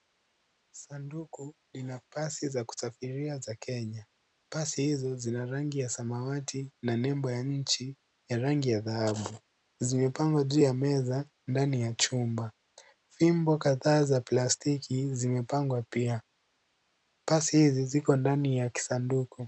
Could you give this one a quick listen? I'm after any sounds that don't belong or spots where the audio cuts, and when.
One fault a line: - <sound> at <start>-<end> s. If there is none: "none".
none